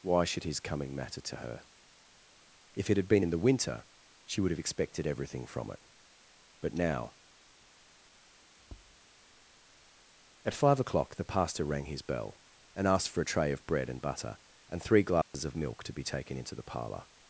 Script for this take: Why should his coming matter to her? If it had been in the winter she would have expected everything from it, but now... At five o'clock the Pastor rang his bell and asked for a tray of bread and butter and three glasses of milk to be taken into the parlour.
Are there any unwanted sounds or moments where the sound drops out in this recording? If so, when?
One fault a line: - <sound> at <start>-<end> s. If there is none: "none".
- tap at 8.6-9.0 s
- dropout at 15.2-15.3 s